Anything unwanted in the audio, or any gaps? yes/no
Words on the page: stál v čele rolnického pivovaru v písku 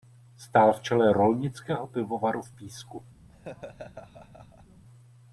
yes